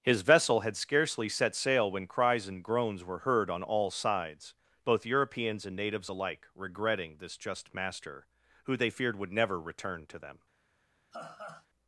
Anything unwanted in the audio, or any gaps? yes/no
yes